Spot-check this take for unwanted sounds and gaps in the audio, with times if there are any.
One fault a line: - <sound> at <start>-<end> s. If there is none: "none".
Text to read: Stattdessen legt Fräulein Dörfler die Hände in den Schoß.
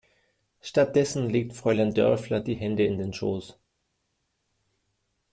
none